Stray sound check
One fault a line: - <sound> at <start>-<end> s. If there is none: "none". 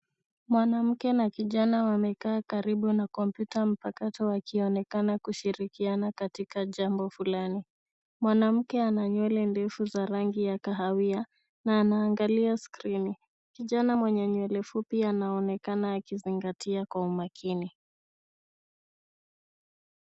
none